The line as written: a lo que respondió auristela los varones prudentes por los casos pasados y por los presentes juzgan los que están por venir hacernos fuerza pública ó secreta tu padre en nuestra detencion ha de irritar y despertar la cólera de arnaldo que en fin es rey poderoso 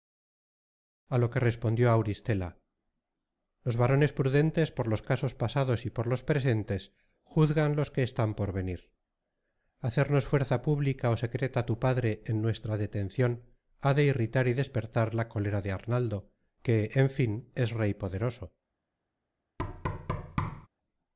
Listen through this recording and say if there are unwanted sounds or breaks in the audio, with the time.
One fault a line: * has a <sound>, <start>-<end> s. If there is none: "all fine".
* has a thud, 19.6-20.7 s